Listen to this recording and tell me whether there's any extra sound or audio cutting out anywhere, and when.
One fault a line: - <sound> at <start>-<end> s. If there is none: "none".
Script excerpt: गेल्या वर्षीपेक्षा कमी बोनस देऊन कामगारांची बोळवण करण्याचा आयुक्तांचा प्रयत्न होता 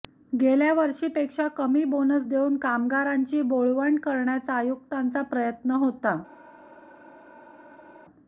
none